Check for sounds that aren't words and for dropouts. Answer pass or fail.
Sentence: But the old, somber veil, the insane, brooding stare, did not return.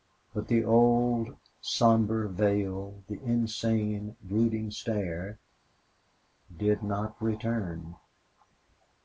pass